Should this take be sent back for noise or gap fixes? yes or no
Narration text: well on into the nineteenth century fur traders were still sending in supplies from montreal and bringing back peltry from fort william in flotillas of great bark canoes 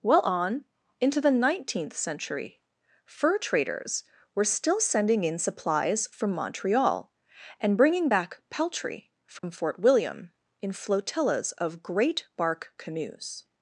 yes